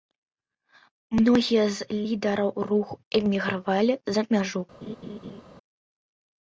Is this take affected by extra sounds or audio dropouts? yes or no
yes